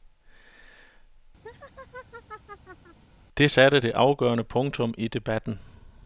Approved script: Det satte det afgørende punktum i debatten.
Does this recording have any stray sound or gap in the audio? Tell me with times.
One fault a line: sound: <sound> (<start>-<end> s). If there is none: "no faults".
sound: laugh (1.4-3.0 s)